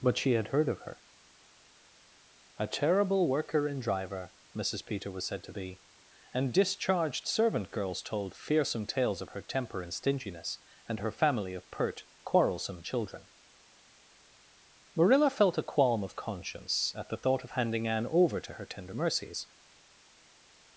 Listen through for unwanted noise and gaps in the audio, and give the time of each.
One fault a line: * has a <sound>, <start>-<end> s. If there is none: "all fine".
all fine